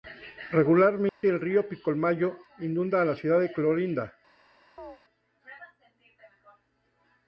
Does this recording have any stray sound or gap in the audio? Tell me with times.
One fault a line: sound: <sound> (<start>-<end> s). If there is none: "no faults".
sound: dropout (1.1-1.2 s)
sound: chirp (4.8-5.0 s)